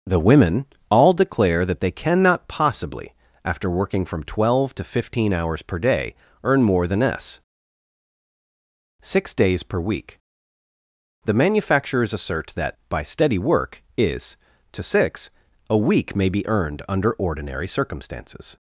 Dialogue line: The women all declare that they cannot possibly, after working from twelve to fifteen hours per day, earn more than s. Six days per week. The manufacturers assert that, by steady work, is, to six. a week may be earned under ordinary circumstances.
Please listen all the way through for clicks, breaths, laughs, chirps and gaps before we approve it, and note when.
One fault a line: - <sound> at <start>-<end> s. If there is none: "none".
none